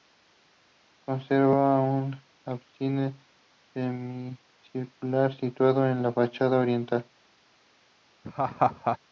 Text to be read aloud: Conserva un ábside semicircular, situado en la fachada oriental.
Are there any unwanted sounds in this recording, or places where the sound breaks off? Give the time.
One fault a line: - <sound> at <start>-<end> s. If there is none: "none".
- laugh at 8.2-9.0 s